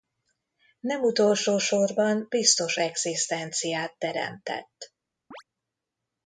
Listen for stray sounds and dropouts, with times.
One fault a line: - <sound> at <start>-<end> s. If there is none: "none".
- chirp at 5.3-5.4 s